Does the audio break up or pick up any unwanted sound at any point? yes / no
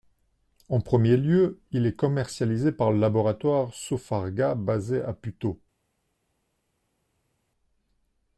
no